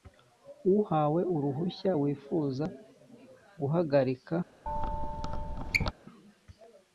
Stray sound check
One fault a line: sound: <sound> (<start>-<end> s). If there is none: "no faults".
sound: squeak (4.7-5.9 s)